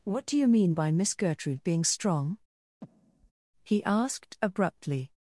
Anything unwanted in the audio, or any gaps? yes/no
yes